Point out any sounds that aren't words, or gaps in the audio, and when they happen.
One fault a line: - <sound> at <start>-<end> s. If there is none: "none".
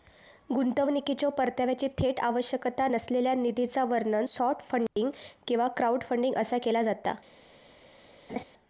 - dropout at 4.9-5.0 s
- laugh at 8.3-8.4 s